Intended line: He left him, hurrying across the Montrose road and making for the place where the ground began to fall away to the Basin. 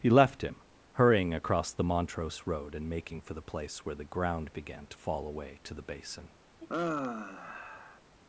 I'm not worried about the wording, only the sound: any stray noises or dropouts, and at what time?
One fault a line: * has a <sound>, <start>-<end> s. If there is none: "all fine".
* has a sigh, 6.6-8.0 s